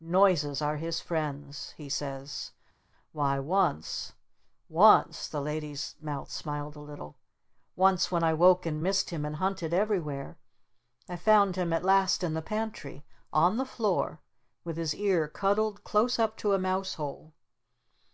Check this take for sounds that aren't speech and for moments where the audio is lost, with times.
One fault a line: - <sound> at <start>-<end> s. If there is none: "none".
none